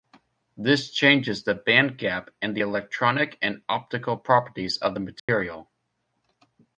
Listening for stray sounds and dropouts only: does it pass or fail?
fail